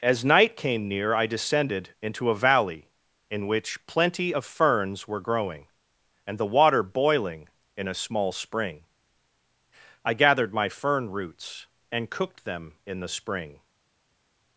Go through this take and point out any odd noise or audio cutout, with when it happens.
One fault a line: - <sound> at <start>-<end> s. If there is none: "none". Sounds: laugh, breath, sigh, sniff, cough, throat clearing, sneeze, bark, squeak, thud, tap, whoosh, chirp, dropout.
none